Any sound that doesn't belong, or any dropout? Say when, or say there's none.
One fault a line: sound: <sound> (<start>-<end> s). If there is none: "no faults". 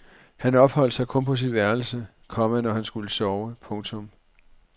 no faults